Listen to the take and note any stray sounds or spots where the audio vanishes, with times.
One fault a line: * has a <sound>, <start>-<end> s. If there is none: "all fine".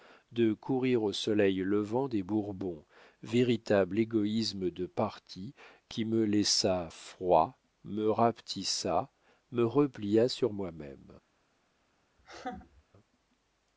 * has a laugh, 12.2-12.8 s